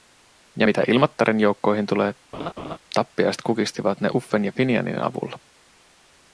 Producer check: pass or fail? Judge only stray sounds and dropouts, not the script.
fail